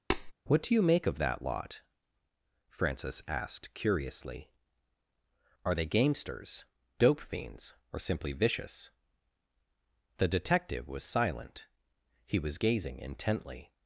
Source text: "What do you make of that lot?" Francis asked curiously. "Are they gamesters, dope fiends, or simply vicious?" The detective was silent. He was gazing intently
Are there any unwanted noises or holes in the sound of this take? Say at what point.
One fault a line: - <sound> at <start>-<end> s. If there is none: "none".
- tap at 0.1-0.3 s